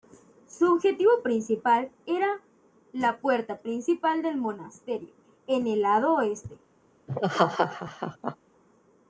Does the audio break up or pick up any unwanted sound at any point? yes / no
yes